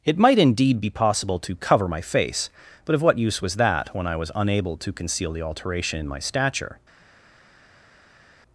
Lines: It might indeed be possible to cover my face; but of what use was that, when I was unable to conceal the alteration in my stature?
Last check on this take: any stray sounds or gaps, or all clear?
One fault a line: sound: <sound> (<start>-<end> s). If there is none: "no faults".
no faults